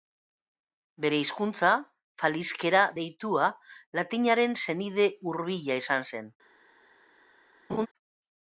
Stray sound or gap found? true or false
true